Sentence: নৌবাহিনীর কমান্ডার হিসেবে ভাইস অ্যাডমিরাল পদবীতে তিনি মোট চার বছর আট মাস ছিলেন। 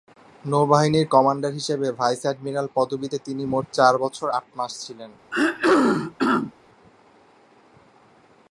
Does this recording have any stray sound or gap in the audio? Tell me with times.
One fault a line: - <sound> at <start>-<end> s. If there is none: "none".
- throat clearing at 5.3-6.5 s